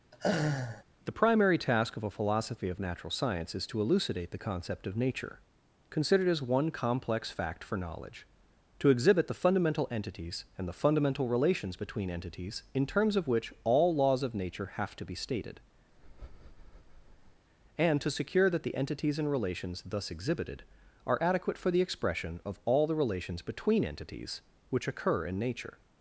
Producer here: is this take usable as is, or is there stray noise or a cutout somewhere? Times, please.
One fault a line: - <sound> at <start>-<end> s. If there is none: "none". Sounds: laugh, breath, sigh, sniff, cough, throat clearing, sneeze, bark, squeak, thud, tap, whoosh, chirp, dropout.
- laugh at 0.1-0.8 s
- breath at 15.9-17.5 s